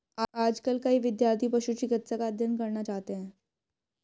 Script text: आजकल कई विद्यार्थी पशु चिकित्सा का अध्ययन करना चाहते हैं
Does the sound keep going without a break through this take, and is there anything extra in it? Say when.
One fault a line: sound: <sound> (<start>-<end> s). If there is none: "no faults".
no faults